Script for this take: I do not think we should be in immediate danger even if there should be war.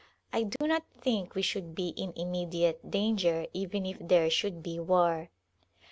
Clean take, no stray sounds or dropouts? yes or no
no